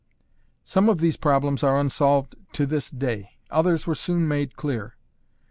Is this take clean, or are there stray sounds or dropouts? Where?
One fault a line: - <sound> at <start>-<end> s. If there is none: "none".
none